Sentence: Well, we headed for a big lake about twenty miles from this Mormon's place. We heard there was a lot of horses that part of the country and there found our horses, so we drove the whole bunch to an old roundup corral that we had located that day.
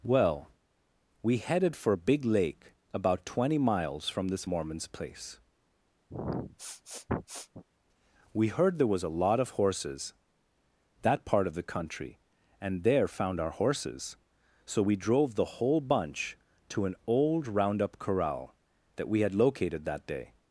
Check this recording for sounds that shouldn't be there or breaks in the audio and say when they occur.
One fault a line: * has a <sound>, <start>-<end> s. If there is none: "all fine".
* has a sniff, 6.1-7.6 s